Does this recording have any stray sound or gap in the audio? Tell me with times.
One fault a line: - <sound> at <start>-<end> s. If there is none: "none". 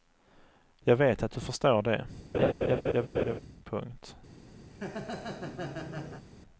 - laugh at 2.3-3.4 s
- laugh at 4.7-6.3 s